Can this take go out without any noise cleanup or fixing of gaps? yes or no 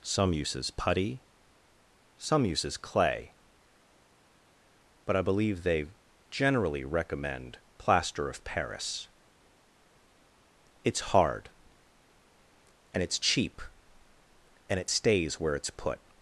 yes